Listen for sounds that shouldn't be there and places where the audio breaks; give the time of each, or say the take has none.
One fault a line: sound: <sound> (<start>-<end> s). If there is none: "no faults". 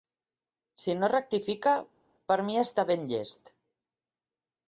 no faults